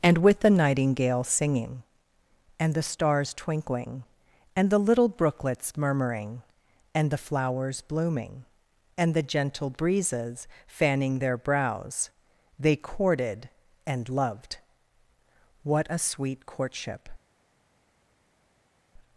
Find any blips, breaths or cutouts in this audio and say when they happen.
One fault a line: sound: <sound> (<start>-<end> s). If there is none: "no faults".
no faults